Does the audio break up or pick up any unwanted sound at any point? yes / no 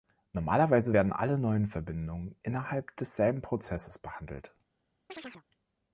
yes